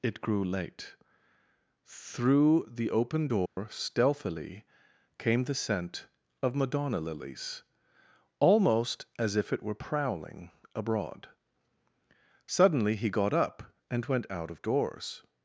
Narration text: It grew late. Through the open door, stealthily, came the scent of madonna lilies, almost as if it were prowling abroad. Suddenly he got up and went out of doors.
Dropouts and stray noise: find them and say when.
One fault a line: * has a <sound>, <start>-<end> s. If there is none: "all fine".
* has a dropout, 3.5-3.6 s